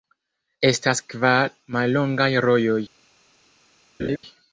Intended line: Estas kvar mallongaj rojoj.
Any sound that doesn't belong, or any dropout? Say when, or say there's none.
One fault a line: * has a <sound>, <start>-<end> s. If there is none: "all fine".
* has a laugh, 4.0-4.2 s